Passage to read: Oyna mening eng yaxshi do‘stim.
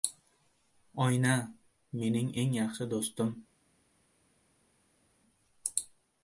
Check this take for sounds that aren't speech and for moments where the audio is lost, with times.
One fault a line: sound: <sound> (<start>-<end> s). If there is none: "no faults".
no faults